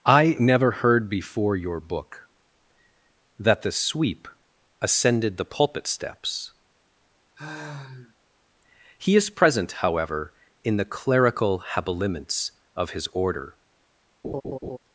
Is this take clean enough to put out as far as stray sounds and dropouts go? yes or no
no